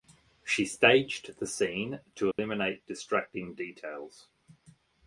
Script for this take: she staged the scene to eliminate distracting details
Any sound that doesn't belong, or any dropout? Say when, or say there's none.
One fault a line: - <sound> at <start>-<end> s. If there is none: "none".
- dropout at 2.3-2.4 s